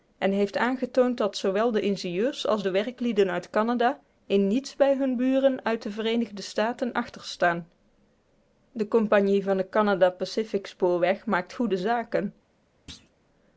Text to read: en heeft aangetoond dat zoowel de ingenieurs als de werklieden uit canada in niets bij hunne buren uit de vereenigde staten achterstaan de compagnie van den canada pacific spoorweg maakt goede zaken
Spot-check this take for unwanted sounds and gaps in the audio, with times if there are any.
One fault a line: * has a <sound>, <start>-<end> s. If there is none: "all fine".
* has a thud, 12.9-13.1 s